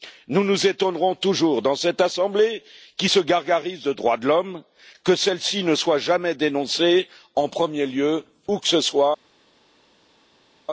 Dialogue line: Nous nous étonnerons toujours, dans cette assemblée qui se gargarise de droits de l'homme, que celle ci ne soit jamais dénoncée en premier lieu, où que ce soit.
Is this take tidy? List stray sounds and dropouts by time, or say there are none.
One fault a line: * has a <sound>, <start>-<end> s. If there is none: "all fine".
all fine